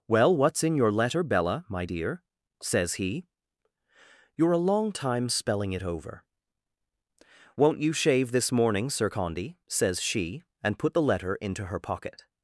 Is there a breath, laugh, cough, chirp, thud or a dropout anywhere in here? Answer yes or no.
no